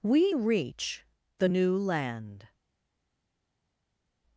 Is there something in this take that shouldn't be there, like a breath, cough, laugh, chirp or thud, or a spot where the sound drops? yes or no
no